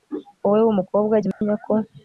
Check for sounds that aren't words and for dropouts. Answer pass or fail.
fail